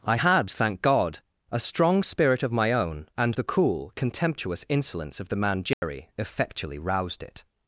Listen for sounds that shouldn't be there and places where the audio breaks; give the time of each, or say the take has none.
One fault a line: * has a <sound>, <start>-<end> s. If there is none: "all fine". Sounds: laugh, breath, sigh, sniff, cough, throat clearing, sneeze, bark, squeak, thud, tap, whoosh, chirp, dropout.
* has a dropout, 5.7-5.8 s